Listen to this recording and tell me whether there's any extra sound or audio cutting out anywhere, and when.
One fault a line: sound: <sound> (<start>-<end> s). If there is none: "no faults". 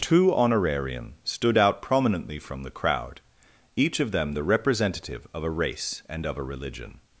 no faults